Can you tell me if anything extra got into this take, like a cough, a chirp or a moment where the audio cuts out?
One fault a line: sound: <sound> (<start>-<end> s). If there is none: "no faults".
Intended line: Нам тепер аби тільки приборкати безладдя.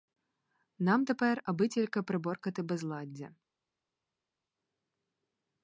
no faults